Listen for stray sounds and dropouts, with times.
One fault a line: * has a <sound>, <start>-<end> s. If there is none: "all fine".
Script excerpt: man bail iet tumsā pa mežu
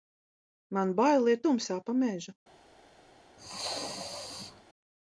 * has a sneeze, 3.4-4.6 s